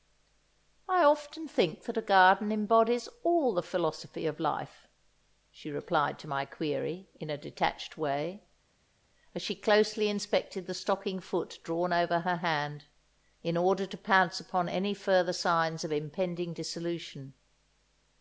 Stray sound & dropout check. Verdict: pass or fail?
pass